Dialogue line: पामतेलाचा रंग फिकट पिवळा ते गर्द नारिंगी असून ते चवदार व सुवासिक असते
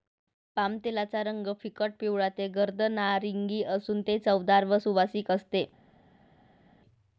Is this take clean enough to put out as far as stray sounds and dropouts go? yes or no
yes